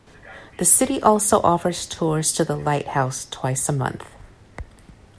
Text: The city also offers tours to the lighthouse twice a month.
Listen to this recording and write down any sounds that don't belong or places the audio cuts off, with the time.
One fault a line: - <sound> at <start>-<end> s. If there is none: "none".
none